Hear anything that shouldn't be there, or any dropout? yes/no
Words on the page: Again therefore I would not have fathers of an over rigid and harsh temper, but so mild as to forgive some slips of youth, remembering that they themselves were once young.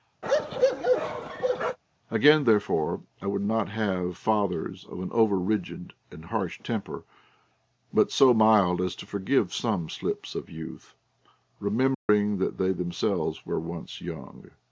yes